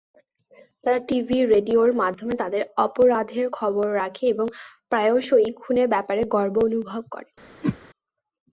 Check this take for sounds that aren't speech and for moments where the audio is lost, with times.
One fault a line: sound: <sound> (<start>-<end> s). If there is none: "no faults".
sound: whoosh (7.6-7.8 s)